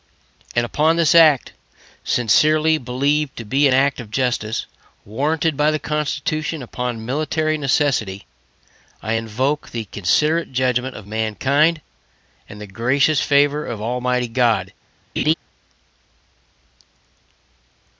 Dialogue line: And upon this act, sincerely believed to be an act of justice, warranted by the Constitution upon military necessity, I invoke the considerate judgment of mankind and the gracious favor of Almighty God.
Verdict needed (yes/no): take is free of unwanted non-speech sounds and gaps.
no